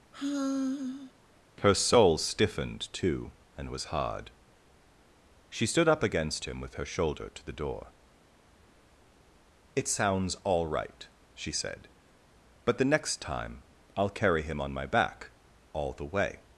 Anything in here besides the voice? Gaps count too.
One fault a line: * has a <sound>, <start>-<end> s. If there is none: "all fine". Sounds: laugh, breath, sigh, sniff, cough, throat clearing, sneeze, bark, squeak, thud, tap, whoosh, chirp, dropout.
* has a sigh, 0.1-1.1 s